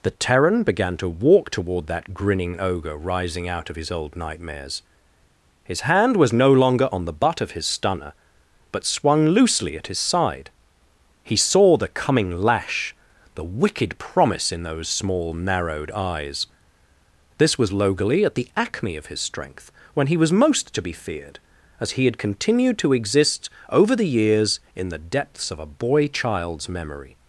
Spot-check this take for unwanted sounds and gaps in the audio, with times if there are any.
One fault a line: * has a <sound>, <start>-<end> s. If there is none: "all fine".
all fine